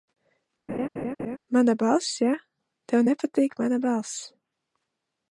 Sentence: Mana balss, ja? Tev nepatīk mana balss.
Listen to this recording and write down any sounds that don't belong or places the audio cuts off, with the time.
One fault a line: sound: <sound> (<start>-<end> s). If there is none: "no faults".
sound: laugh (0.7-1.4 s)